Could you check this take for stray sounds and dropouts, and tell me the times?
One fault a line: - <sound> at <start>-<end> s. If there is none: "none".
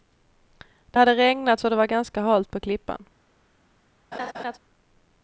- laugh at 4.1-4.6 s